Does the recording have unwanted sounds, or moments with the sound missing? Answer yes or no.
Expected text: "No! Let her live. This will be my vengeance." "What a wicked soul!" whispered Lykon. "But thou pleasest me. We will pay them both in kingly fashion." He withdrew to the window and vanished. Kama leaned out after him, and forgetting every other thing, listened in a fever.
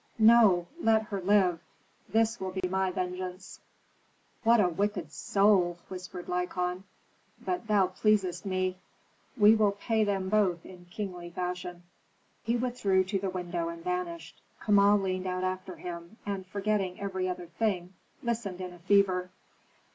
yes